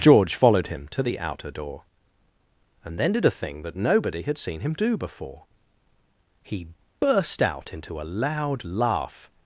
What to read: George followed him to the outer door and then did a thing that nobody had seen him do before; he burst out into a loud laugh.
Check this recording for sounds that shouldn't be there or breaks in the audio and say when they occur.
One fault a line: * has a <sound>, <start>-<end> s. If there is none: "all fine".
all fine